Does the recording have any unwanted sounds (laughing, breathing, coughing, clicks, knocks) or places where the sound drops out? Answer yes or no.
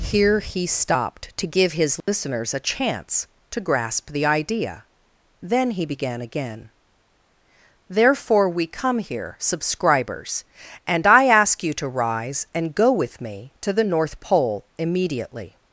yes